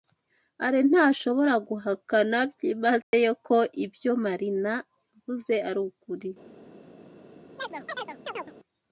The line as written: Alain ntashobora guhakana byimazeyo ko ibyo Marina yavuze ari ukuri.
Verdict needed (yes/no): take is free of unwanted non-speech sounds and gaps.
no